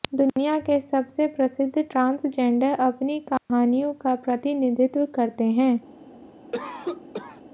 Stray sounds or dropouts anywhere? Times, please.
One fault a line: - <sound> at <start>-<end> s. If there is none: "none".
- dropout at 3.4-3.5 s
- cough at 6.5-7.4 s